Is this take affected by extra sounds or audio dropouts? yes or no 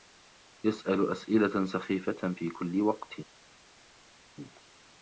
no